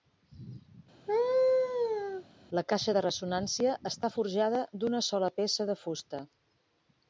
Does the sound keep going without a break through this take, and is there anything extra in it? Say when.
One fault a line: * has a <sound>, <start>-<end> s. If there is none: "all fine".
* has a laugh, 1.1-2.2 s